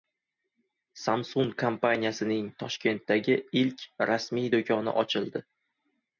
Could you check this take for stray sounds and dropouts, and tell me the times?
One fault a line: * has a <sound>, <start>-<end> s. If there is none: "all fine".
all fine